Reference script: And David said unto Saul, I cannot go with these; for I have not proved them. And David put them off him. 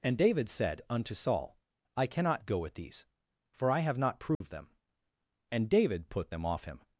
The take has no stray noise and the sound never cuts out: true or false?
false